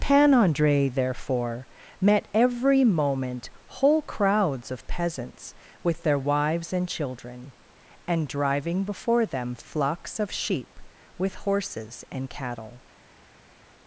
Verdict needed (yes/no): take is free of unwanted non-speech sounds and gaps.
yes